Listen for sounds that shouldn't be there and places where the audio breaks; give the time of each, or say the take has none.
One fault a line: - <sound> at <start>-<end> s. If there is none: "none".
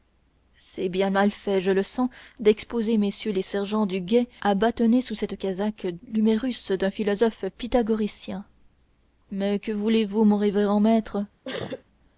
- sneeze at 11.4-11.8 s